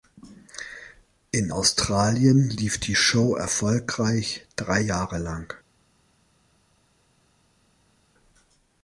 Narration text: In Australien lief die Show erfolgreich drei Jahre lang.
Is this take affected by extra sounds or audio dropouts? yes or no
no